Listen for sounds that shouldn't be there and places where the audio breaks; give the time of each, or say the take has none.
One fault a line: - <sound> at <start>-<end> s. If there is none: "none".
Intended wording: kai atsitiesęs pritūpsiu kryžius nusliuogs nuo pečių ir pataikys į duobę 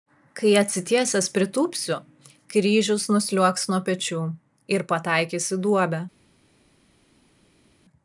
none